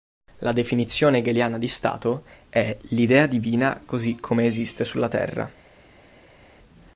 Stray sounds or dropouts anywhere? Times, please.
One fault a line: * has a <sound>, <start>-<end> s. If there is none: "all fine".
all fine